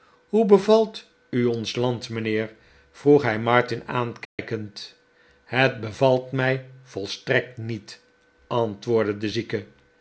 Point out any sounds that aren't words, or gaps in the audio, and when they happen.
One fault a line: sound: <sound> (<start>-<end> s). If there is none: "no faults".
sound: dropout (4.2-4.4 s)